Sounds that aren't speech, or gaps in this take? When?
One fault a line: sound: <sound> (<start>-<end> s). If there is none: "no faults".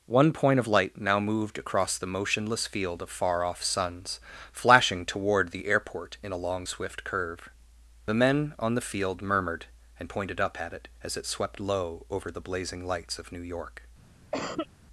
sound: cough (14.3-14.7 s)